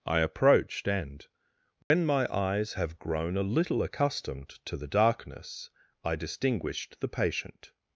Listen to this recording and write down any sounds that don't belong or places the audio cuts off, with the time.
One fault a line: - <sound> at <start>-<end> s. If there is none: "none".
- dropout at 1.8-1.9 s